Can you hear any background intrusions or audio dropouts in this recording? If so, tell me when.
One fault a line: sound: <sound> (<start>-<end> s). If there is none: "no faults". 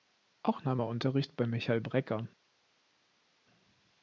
no faults